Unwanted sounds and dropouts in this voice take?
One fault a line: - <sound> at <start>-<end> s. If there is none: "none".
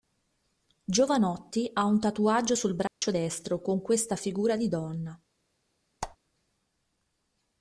- dropout at 2.9-3.0 s
- squeak at 6.0-6.2 s